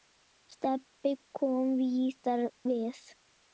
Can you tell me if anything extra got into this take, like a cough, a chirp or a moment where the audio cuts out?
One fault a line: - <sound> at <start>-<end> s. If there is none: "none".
none